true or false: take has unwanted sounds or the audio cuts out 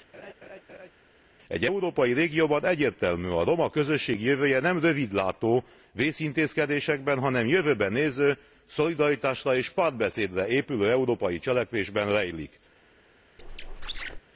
true